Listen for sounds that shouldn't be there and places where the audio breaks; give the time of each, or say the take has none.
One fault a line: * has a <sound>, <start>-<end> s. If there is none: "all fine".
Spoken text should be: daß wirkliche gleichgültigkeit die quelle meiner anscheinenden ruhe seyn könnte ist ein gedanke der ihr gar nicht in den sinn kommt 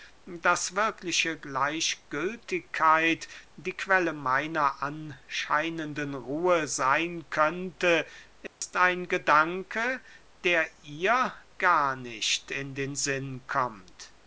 * has a dropout, 8.5-8.6 s